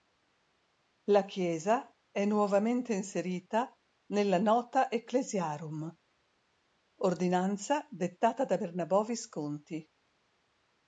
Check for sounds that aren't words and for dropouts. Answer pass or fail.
pass